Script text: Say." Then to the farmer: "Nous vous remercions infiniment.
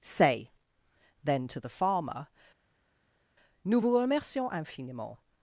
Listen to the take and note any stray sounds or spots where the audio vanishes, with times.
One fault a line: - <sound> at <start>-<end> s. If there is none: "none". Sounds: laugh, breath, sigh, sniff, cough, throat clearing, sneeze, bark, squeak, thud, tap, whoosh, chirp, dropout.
none